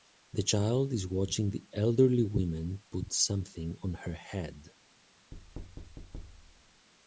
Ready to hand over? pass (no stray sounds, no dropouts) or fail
fail